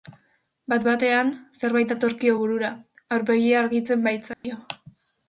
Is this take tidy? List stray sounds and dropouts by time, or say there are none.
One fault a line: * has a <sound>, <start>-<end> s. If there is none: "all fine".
* has a dropout, 4.3-4.4 s